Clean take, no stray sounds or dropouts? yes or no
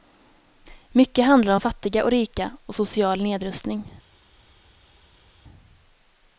yes